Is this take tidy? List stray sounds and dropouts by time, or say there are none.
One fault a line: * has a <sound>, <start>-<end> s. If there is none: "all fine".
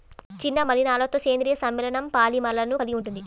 all fine